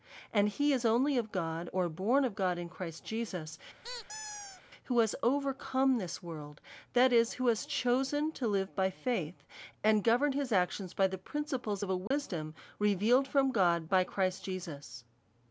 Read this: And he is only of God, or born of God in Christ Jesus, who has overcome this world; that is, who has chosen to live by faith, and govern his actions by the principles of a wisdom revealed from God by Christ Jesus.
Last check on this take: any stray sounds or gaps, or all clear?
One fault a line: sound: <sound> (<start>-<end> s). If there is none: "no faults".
sound: squeak (3.8-4.6 s)
sound: dropout (12.1-12.1 s)